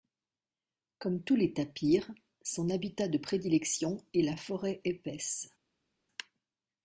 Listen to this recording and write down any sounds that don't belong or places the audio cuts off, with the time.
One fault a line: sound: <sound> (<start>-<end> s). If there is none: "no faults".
no faults